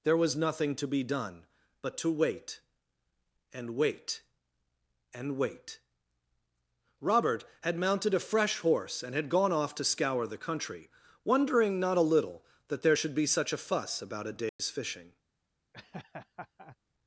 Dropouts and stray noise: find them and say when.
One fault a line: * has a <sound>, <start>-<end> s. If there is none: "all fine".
* has a dropout, 14.5-14.6 s
* has a laugh, 15.7-16.8 s